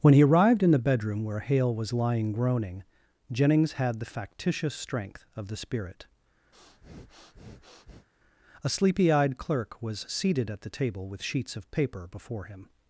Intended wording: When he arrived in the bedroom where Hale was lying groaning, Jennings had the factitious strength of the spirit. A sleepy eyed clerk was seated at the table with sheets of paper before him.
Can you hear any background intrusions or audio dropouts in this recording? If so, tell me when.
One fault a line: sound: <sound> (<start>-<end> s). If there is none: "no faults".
sound: breath (6.5-8.1 s)